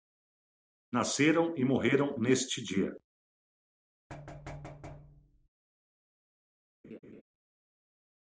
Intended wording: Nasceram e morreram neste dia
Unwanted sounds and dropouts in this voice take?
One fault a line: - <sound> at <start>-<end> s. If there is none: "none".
- thud at 4.1-5.5 s
- laugh at 6.8-7.2 s